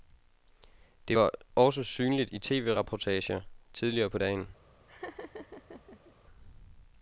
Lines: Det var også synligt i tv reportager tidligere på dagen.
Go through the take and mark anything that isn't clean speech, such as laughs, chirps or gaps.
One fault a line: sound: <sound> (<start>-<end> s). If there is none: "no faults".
sound: laugh (4.9-6.1 s)